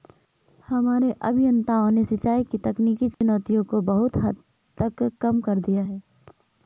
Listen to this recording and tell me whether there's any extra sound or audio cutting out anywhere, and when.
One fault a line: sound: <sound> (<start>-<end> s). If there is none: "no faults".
sound: dropout (3.1-3.2 s)